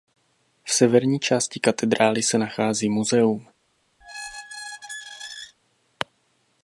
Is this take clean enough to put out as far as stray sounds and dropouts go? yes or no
no